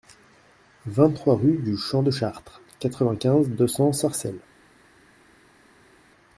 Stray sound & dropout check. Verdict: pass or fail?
pass